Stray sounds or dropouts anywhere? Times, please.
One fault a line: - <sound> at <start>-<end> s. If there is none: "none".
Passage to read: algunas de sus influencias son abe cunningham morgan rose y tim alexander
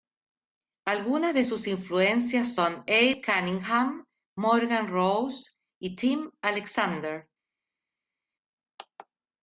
none